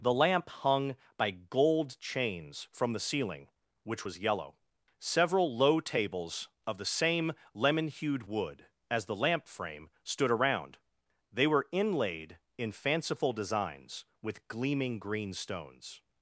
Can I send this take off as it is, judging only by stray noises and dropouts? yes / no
yes